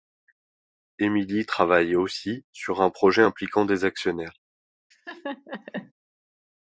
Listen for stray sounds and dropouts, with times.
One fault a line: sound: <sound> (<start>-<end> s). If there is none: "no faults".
sound: laugh (4.9-5.9 s)